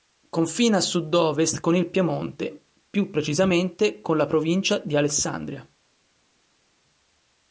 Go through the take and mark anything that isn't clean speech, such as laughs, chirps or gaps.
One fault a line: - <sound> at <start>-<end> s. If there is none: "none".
none